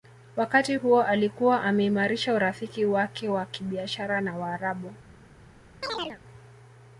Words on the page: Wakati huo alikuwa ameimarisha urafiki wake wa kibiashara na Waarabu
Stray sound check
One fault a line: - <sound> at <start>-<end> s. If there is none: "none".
- chirp at 5.8-6.2 s